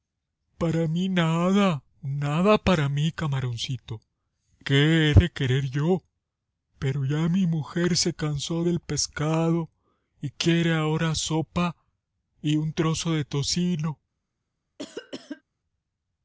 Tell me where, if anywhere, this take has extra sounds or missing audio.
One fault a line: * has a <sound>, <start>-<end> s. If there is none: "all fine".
* has a cough, 14.8-15.4 s